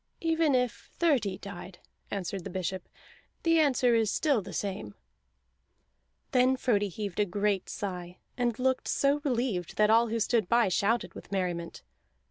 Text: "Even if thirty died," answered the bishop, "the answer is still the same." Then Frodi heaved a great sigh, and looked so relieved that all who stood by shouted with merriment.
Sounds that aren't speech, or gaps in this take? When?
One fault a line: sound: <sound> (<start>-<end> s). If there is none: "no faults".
no faults